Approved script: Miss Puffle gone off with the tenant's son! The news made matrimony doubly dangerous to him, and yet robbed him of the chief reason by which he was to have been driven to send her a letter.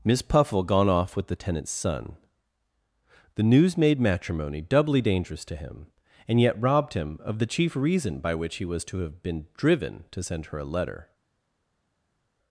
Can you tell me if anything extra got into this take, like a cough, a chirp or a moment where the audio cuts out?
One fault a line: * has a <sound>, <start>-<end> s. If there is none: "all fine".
all fine